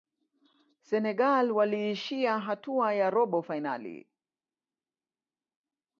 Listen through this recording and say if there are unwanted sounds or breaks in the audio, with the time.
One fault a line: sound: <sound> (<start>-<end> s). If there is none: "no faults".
no faults